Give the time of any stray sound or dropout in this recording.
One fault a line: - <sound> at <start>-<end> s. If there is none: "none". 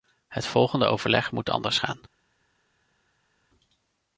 none